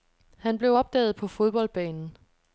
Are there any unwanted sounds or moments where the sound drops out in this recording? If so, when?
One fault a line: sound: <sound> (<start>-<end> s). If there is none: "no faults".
no faults